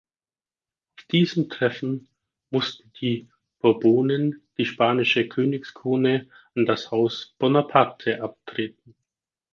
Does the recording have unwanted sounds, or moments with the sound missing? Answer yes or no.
no